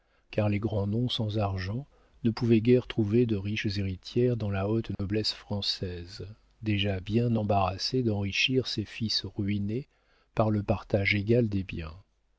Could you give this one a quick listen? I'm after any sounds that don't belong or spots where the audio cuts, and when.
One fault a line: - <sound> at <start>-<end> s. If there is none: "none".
- dropout at 4.9-5.0 s